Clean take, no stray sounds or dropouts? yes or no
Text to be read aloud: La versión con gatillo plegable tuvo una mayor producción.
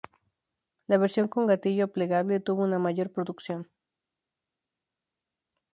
yes